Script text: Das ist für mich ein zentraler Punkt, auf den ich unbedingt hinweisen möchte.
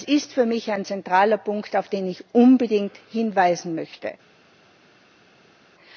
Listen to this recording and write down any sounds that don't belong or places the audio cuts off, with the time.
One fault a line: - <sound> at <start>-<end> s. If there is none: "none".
none